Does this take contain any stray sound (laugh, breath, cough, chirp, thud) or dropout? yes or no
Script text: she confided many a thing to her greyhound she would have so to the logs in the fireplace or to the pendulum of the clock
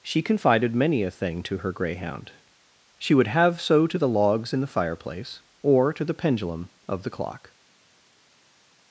no